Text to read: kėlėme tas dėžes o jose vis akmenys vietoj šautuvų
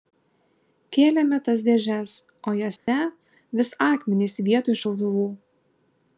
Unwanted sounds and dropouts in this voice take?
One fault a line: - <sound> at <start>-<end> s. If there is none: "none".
- dropout at 2.8-2.9 s